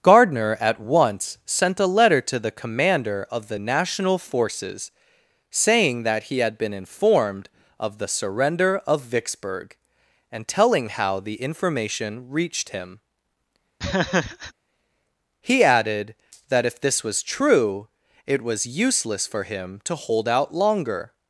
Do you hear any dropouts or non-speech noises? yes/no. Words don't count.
yes